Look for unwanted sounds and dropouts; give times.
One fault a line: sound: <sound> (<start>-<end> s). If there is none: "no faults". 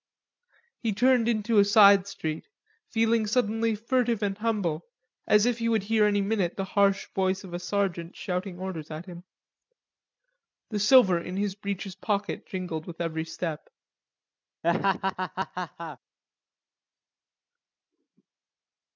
sound: laugh (14.6-16.0 s)